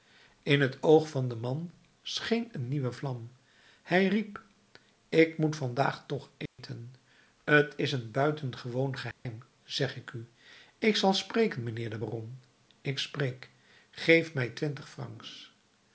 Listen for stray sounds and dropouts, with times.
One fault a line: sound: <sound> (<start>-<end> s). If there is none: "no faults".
sound: dropout (6.5-6.6 s)
sound: dropout (9.1-9.3 s)